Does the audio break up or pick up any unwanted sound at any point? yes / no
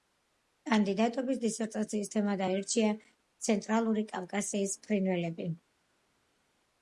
no